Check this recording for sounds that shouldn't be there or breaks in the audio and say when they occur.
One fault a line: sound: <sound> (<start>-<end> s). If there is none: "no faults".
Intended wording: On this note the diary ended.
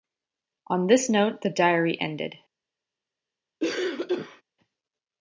sound: cough (3.6-4.4 s)